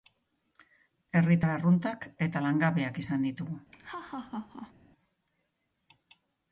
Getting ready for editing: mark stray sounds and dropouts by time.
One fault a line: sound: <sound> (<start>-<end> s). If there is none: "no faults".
sound: laugh (3.7-4.7 s)